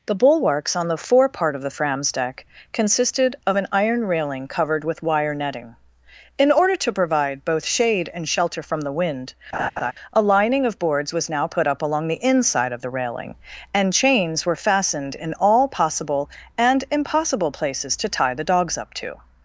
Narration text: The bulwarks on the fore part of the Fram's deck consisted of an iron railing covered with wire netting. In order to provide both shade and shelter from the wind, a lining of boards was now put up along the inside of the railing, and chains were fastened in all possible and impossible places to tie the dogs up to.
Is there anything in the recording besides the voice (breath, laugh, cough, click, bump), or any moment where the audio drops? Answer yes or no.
yes